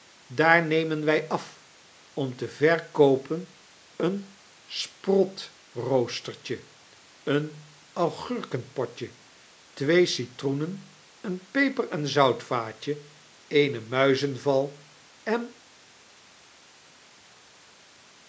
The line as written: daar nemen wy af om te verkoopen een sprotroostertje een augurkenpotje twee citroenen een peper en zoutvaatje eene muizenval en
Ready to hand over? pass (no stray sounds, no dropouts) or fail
pass